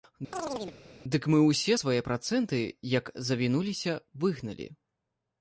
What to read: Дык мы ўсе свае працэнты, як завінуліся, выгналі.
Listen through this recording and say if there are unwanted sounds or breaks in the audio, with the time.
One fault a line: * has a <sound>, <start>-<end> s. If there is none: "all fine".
* has a chirp, 0.3-0.8 s